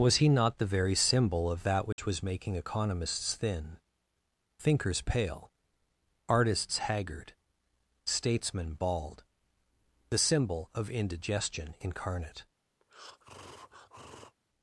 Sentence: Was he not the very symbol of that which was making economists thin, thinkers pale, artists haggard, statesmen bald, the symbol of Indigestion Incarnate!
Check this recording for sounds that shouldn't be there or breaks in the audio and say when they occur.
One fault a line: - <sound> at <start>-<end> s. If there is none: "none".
- dropout at 1.9-2.0 s
- breath at 12.8-14.4 s